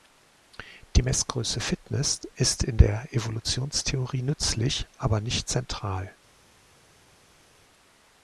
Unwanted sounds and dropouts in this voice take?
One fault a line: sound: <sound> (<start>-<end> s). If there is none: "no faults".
no faults